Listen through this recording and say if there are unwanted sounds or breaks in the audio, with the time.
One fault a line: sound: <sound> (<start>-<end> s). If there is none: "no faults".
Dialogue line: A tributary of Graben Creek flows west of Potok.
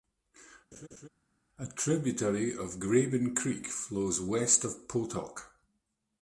sound: laugh (0.7-1.1 s)